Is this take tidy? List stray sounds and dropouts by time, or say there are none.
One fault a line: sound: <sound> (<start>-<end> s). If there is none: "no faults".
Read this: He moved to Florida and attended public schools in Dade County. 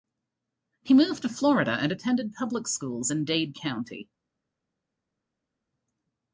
no faults